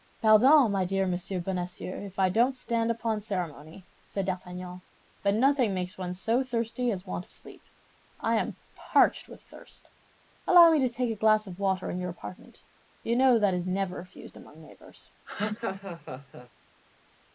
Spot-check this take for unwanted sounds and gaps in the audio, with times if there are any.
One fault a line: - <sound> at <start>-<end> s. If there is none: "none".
- laugh at 15.3-16.5 s